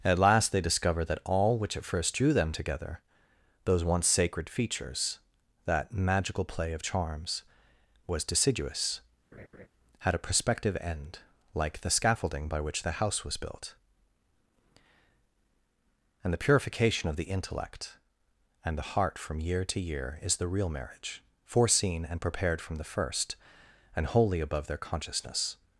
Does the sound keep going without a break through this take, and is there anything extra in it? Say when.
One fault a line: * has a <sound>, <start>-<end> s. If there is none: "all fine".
* has a laugh, 9.3-9.7 s